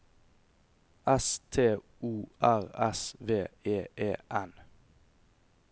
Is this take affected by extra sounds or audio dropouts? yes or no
no